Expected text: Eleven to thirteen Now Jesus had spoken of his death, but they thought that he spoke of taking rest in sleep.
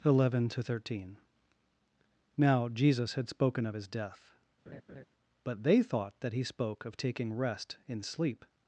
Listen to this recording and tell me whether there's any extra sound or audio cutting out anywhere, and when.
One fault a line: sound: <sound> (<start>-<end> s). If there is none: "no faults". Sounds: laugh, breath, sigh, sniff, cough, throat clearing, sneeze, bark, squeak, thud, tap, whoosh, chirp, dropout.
sound: laugh (4.7-5.1 s)